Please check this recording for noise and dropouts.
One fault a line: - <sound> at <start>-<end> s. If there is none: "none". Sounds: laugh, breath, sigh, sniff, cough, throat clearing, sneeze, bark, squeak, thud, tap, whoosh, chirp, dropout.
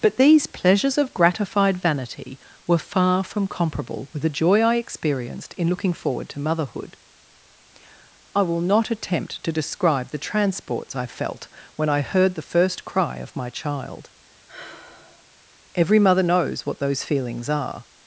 - sigh at 14.5-15.3 s